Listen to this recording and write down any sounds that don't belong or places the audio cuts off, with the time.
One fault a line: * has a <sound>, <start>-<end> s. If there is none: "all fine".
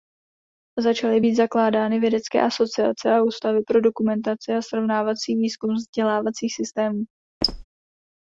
* has a squeak, 7.4-7.6 s